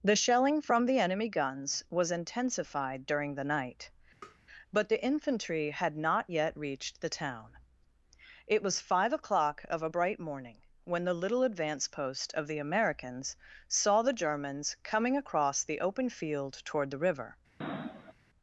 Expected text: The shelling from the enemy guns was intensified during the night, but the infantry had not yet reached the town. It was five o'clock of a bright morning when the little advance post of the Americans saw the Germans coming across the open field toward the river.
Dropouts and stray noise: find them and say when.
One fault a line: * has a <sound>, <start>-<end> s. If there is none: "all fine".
* has a tap, 4.2-4.4 s
* has a sniff, 17.6-18.1 s